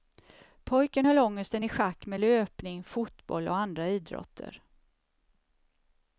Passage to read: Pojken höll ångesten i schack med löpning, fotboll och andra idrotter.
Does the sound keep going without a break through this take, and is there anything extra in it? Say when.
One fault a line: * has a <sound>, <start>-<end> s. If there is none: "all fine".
all fine